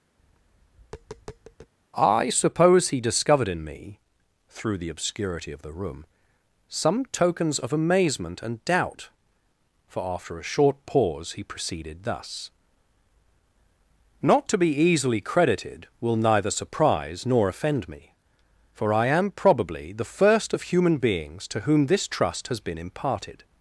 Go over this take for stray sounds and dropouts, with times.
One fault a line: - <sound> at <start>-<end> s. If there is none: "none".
- tap at 0.2-1.7 s